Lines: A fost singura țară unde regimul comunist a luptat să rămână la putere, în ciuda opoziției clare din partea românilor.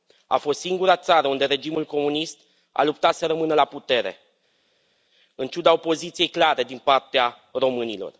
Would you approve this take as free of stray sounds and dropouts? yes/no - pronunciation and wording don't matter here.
yes